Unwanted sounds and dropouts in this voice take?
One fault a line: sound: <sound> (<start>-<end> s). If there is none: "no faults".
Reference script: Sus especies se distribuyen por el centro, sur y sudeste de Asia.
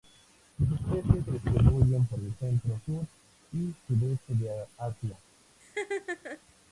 sound: laugh (5.6-6.4 s)